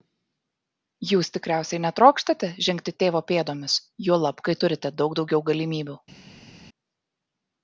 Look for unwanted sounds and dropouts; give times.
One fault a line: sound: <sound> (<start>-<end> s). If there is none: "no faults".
no faults